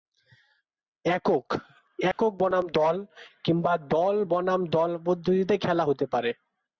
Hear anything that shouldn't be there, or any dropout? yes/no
yes